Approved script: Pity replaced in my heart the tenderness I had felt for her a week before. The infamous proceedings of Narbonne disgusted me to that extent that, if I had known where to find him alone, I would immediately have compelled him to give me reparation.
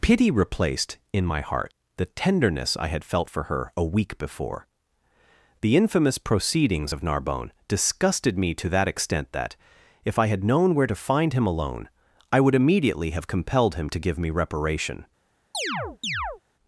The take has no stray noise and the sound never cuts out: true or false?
false